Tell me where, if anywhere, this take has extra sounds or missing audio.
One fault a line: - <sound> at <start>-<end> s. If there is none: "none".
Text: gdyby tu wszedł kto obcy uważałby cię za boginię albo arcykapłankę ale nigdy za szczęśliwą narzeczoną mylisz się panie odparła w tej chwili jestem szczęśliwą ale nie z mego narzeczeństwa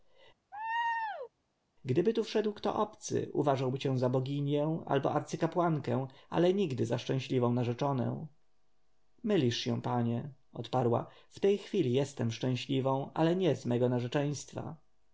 - laugh at 0.5-1.3 s